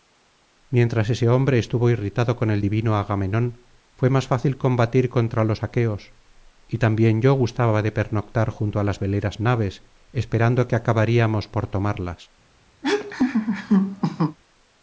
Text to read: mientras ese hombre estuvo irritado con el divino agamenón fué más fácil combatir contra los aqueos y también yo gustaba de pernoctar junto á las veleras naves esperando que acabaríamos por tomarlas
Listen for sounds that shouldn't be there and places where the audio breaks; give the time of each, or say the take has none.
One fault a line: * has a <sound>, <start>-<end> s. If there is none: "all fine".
* has a laugh, 12.8-14.4 s